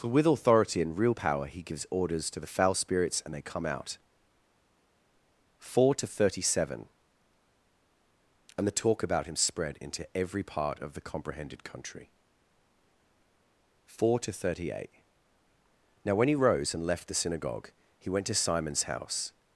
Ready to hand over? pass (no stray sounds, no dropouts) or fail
pass